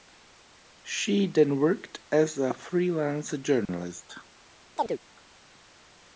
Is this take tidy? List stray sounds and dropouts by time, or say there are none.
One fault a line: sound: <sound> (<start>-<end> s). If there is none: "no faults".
sound: dropout (3.7-3.7 s)
sound: chirp (4.8-5.0 s)